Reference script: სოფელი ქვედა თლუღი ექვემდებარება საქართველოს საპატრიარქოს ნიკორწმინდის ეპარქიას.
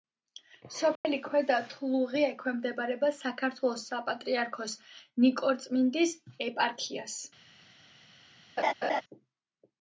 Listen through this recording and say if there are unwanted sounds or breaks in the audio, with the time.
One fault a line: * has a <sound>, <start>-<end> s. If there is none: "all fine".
* has a dropout, 1.0-1.0 s
* has a laugh, 8.6-9.0 s